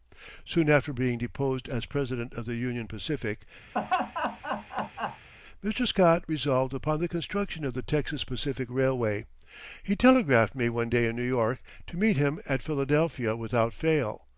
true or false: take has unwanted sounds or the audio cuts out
true